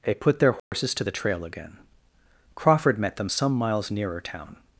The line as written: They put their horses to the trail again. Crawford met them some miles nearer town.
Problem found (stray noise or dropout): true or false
true